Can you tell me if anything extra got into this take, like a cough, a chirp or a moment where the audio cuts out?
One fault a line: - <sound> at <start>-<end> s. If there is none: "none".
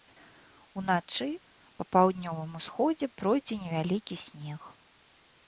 none